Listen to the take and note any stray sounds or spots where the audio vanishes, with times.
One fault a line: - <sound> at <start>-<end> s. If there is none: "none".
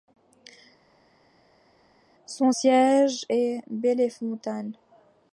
none